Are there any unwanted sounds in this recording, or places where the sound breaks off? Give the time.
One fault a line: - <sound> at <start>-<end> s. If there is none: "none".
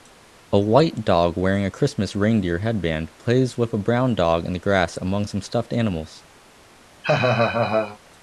- laugh at 7.0-8.0 s